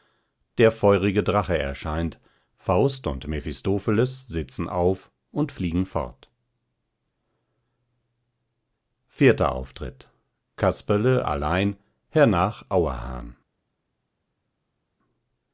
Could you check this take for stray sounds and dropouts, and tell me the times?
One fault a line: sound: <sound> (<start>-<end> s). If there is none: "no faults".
no faults